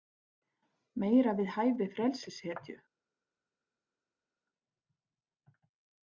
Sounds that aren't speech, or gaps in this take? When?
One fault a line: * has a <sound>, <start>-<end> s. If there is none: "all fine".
all fine